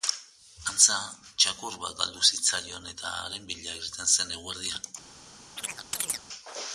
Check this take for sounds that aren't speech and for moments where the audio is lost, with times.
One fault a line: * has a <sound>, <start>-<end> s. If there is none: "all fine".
* has a chirp, 5.6-6.3 s